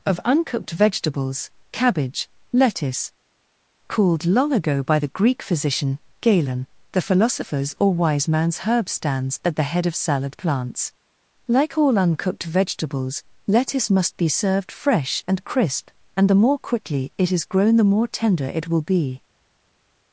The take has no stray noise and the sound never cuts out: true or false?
true